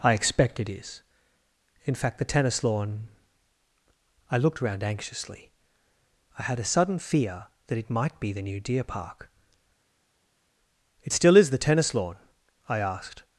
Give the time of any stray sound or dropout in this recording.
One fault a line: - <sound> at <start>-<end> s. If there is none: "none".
none